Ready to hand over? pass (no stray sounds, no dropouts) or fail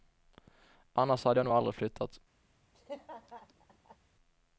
fail